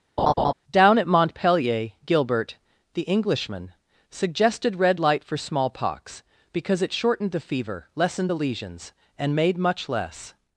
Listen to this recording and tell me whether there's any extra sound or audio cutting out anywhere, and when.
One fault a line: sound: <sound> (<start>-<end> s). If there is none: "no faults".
sound: laugh (0.2-0.5 s)